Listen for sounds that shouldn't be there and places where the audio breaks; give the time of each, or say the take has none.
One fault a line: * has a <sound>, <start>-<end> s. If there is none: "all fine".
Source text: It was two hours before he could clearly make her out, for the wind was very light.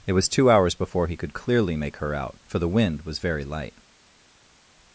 all fine